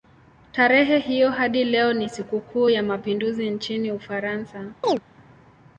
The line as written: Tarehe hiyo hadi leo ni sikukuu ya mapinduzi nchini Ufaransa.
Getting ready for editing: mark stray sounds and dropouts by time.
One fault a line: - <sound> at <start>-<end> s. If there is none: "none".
- chirp at 4.8-5.0 s